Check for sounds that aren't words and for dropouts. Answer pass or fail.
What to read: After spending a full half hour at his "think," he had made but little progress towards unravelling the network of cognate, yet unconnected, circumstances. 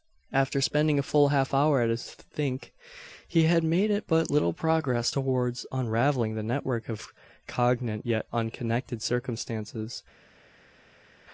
pass